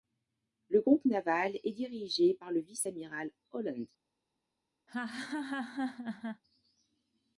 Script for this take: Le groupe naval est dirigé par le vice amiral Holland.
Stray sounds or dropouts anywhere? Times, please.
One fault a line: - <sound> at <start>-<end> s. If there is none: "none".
- laugh at 4.9-6.4 s